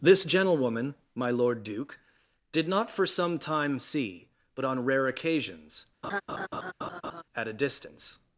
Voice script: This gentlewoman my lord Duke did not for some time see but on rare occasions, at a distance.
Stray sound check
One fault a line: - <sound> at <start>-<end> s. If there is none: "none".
- laugh at 6.0-7.2 s